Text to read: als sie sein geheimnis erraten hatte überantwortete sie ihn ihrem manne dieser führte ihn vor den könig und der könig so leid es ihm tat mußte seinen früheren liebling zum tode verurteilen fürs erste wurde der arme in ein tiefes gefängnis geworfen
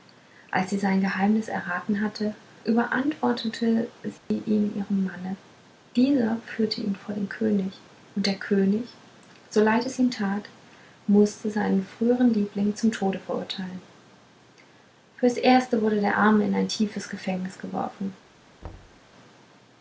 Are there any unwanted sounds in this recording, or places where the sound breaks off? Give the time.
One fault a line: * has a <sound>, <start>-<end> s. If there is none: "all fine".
* has a dropout, 4.2-4.3 s
* has a thud, 18.6-19.0 s